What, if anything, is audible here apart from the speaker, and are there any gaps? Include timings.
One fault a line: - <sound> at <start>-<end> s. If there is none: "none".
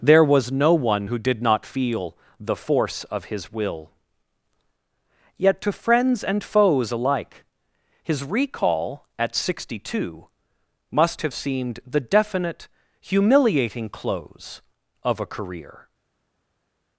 none